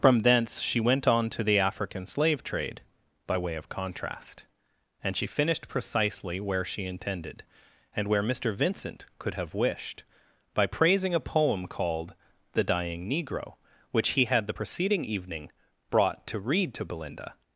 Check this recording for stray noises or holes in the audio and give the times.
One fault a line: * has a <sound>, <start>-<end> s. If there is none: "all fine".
all fine